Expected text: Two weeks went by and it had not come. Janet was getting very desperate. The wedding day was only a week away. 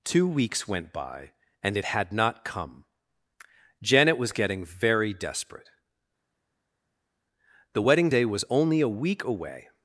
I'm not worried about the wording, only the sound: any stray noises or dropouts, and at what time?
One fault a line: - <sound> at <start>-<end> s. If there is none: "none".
none